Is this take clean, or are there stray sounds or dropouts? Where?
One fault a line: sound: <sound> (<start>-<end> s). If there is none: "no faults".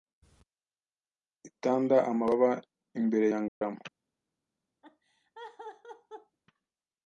sound: dropout (3.5-3.6 s)
sound: laugh (4.8-6.4 s)